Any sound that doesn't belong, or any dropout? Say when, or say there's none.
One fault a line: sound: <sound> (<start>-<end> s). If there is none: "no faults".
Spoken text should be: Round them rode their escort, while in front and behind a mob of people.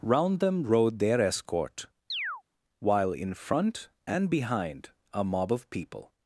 sound: chirp (2.1-2.4 s)